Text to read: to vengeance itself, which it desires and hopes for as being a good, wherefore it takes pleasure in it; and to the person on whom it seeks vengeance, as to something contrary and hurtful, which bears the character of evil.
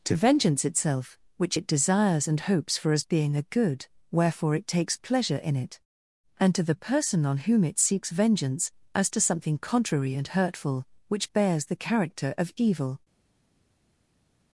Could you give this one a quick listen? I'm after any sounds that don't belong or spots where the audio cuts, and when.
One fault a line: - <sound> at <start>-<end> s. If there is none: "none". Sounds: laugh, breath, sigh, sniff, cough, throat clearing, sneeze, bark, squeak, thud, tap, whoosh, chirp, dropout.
none